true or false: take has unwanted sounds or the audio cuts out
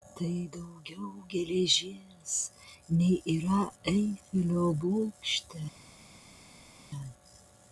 false